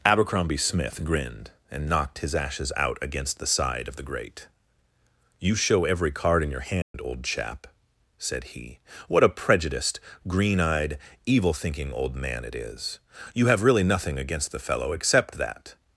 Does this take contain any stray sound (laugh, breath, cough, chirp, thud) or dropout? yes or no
yes